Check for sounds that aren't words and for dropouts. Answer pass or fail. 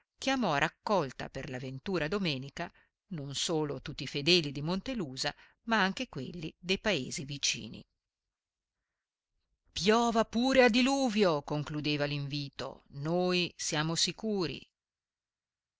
pass